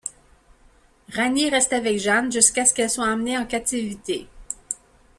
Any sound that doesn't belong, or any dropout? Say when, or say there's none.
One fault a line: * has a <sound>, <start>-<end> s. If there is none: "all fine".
all fine